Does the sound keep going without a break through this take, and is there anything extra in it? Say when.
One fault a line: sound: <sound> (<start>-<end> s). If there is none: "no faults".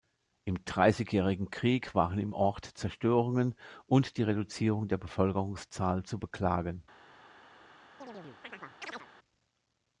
sound: chirp (8.0-9.1 s)